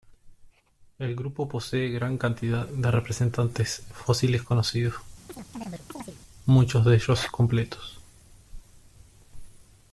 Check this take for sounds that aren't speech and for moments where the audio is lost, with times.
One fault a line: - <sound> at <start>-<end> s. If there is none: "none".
- chirp at 5.3-6.2 s